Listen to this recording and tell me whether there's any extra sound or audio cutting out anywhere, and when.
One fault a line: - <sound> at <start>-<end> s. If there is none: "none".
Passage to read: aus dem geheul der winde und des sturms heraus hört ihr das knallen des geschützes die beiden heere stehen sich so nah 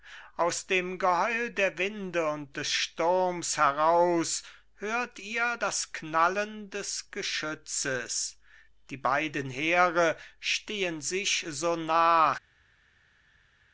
none